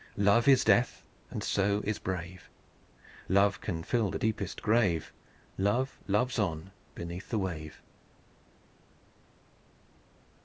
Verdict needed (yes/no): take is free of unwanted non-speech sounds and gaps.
yes